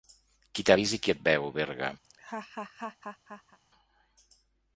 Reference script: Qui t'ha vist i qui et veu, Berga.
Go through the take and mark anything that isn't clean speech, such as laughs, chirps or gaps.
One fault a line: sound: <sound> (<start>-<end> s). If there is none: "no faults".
sound: laugh (2.0-3.6 s)